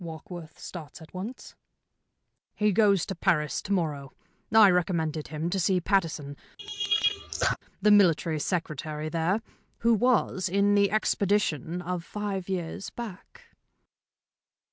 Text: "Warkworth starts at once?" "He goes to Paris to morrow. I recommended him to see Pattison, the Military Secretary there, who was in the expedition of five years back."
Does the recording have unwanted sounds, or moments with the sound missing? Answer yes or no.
yes